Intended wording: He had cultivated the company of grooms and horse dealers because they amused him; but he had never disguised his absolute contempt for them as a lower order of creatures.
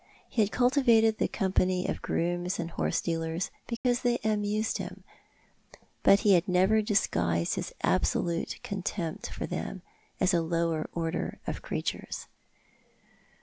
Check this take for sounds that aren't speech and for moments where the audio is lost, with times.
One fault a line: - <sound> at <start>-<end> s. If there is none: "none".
- dropout at 3.8-3.8 s